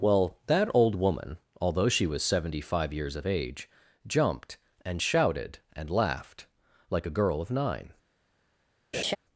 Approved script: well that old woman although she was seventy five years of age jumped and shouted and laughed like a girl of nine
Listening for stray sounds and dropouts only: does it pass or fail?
fail